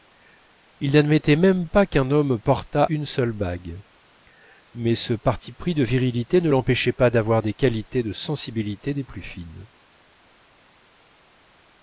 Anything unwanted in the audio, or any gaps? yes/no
no